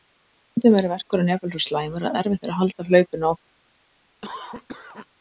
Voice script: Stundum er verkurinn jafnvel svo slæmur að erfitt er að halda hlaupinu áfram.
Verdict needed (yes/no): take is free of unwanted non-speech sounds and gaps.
no